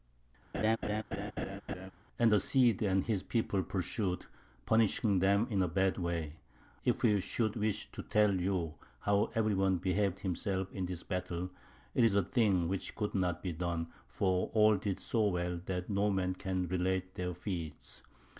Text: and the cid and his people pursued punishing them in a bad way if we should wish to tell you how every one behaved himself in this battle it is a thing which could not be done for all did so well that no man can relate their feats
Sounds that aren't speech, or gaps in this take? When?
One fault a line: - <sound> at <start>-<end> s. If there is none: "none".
- laugh at 0.5-1.9 s